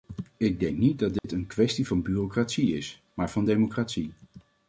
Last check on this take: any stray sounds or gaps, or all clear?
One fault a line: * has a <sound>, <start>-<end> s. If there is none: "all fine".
* has a dropout, 1.2-1.2 s